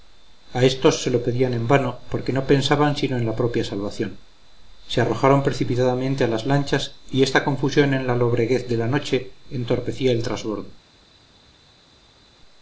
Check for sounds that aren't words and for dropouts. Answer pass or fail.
pass